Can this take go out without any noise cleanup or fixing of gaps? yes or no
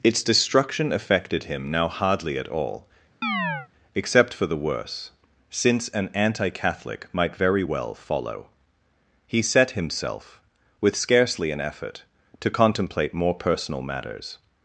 no